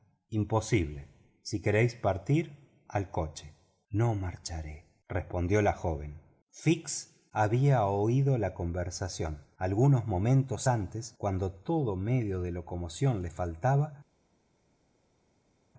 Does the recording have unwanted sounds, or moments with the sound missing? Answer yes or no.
no